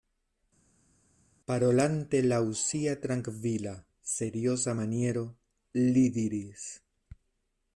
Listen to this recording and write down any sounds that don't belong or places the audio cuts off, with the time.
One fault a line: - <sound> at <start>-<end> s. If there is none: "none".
none